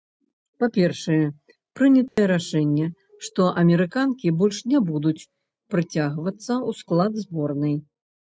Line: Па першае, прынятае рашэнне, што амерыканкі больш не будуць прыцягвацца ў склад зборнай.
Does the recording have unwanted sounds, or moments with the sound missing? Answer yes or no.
yes